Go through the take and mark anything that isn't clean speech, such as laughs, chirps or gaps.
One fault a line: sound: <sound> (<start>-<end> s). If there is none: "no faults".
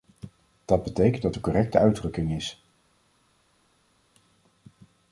no faults